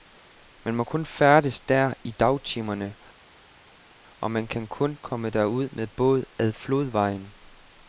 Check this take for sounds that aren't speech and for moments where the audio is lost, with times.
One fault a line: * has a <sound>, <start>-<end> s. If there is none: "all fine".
all fine